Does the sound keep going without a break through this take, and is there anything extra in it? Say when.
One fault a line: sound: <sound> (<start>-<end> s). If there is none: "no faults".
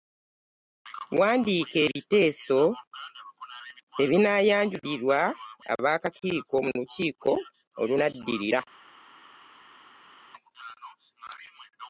no faults